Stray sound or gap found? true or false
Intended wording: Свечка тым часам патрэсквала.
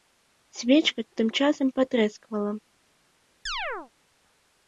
true